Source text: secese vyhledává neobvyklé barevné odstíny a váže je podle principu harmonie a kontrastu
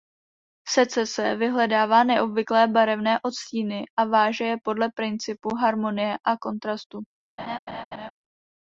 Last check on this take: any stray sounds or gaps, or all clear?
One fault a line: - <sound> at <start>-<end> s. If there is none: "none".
- laugh at 7.4-8.1 s